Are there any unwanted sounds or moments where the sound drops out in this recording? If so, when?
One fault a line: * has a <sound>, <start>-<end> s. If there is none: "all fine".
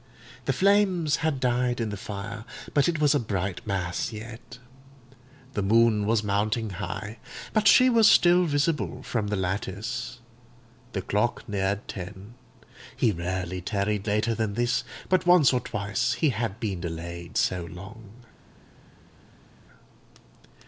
all fine